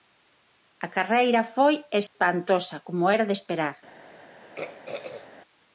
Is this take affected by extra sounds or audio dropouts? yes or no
yes